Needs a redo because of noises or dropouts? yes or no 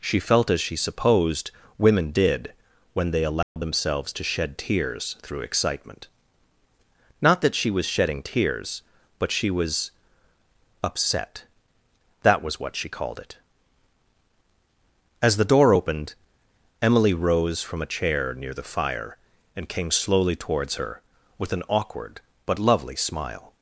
yes